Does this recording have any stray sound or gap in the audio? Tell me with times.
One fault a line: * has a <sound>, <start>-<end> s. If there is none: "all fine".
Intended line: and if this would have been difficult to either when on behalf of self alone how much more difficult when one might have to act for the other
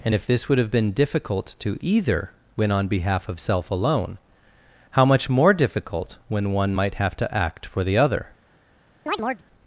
* has a chirp, 9.1-9.4 s